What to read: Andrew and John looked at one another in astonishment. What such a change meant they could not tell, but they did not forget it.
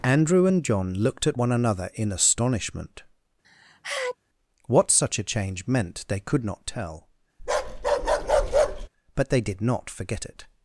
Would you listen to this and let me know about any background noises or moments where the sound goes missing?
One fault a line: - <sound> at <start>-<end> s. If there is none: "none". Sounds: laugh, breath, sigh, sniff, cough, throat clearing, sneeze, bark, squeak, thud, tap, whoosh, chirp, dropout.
- sneeze at 3.4-4.2 s
- bark at 7.4-8.9 s